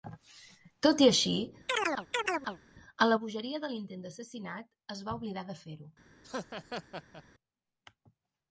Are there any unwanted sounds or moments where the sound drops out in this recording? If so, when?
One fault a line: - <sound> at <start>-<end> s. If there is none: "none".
- chirp at 1.7-2.6 s
- laugh at 6.2-7.2 s